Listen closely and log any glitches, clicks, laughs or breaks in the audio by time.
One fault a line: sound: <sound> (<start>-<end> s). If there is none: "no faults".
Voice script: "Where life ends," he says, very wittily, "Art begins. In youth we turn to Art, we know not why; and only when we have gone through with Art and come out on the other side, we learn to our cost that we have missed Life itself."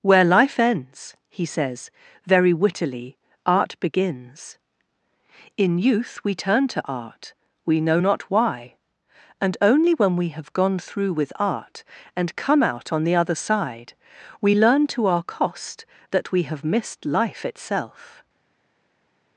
no faults